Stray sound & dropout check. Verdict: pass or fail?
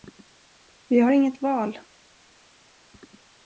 pass